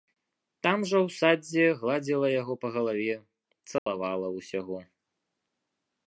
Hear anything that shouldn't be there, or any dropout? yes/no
yes